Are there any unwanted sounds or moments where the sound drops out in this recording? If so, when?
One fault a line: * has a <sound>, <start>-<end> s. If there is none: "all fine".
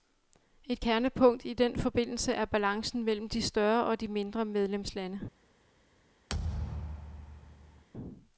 * has a thud, 6.3-7.8 s